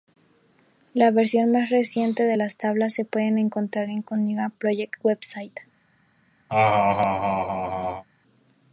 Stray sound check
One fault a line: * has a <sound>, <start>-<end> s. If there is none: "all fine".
* has a laugh, 6.5-8.0 s